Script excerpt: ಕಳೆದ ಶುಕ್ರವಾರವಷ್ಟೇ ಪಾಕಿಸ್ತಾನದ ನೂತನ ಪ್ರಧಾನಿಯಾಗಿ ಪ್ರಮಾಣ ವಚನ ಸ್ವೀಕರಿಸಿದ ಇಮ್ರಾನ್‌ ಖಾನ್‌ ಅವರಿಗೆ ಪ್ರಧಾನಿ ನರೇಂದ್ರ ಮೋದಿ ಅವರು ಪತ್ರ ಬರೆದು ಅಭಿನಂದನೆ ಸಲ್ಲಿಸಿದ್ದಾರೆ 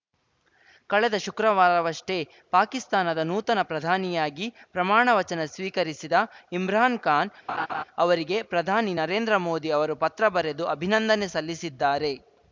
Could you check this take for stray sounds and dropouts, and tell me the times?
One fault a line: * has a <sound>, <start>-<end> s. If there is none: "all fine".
* has a laugh, 7.5-7.8 s